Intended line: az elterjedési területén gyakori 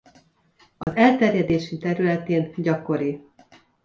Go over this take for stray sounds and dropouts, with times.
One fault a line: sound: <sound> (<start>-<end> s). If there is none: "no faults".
sound: dropout (0.8-0.9 s)